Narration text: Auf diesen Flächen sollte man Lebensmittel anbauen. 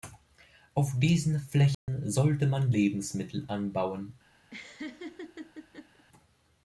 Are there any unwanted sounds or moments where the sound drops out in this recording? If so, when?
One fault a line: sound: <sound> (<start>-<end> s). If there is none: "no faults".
sound: dropout (1.7-1.9 s)
sound: laugh (4.5-6.0 s)